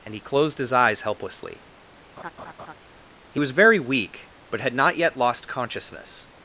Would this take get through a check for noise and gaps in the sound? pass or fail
fail